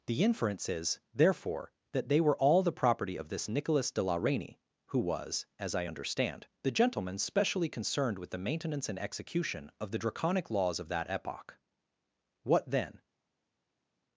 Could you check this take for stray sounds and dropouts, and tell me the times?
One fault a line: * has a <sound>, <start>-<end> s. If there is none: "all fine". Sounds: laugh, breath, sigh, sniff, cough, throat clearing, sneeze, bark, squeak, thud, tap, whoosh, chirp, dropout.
all fine